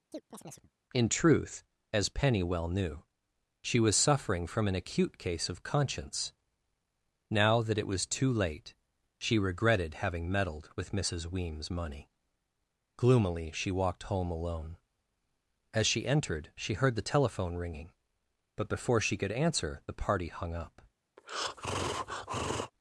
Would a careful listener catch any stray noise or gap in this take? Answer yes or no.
yes